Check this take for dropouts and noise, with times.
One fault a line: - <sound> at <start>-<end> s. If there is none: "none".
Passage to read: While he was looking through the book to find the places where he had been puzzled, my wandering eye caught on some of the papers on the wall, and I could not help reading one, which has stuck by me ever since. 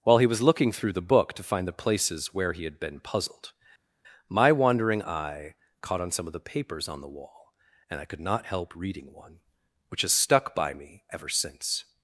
none